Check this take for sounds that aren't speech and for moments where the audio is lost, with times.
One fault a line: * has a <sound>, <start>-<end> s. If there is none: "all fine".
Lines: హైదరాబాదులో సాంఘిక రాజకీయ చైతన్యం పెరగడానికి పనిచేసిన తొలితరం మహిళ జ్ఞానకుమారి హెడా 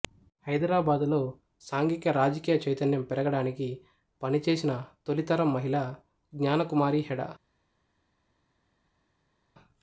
all fine